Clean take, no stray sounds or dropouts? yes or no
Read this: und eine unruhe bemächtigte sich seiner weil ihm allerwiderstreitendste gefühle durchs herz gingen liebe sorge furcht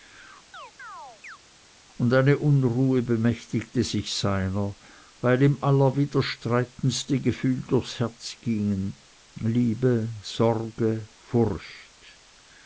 no